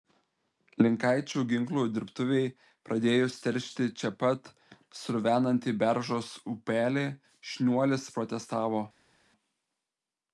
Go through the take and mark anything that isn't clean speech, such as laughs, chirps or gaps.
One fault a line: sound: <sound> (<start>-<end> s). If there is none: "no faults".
no faults